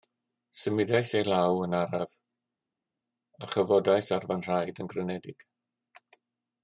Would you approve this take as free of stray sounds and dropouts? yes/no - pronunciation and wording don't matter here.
yes